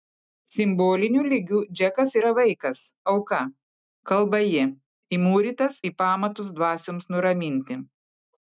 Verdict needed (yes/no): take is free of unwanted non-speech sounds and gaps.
yes